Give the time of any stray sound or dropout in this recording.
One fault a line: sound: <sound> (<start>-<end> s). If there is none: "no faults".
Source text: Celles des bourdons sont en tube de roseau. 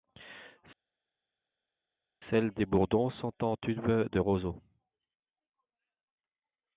no faults